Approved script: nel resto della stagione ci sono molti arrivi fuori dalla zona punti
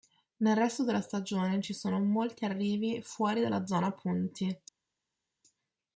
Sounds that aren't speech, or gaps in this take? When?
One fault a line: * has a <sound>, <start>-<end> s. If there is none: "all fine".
all fine